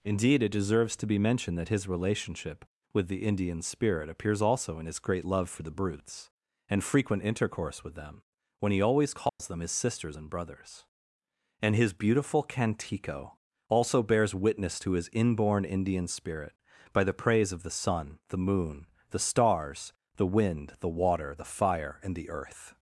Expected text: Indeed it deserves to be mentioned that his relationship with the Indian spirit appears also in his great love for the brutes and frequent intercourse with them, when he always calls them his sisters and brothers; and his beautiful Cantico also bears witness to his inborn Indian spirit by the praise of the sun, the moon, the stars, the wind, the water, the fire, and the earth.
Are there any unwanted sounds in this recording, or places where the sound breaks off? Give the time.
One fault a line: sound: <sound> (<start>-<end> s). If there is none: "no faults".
sound: dropout (9.3-9.4 s)